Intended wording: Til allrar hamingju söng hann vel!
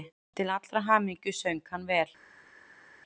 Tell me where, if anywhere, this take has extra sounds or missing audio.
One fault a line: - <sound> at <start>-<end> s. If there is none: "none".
none